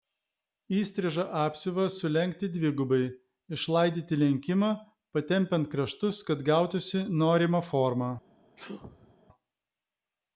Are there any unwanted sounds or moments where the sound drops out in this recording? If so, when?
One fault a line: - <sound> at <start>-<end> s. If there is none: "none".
- sneeze at 8.6-9.2 s